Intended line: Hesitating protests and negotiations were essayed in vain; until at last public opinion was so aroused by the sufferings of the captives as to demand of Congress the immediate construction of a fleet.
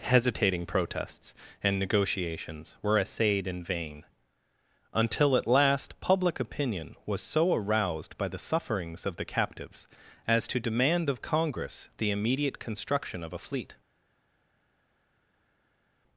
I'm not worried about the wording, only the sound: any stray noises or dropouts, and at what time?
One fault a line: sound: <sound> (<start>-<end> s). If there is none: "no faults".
no faults